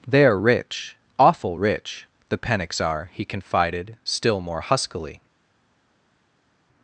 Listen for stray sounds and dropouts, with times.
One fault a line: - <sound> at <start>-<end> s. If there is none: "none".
none